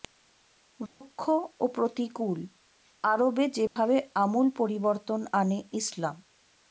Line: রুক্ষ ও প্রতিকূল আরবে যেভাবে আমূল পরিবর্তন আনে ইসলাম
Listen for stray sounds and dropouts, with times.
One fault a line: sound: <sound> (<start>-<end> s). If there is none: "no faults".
sound: dropout (0.9-1.0 s)
sound: dropout (3.7-3.8 s)